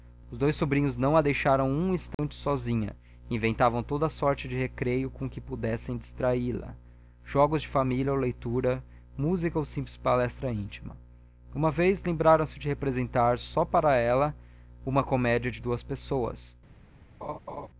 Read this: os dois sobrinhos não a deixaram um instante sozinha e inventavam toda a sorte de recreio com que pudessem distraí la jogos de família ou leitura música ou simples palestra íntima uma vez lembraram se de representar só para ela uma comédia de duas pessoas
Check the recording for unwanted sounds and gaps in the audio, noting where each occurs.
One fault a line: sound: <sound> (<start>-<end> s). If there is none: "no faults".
sound: dropout (2.1-2.2 s)
sound: laugh (17.2-17.7 s)